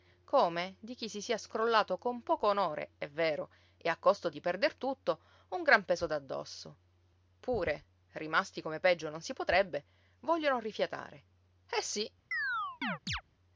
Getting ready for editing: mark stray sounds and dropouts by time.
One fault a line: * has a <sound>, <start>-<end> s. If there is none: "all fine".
* has a chirp, 12.3-13.2 s